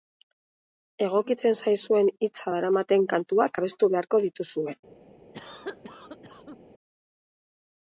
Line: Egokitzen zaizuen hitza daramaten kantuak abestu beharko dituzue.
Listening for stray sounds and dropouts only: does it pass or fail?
fail